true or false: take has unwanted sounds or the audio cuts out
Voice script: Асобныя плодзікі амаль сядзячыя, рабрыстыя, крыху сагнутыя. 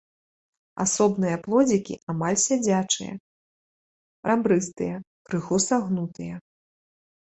false